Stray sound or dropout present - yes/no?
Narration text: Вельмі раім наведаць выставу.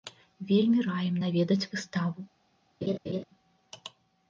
yes